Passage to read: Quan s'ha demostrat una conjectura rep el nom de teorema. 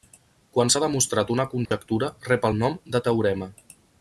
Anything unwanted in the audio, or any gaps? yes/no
yes